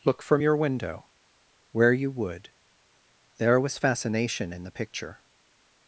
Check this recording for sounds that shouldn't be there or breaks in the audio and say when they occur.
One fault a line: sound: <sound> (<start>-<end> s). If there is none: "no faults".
no faults